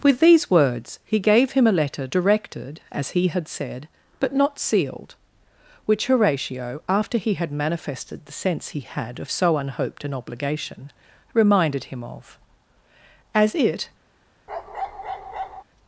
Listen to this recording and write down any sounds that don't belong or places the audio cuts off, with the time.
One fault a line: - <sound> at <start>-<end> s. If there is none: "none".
- bark at 14.5-15.6 s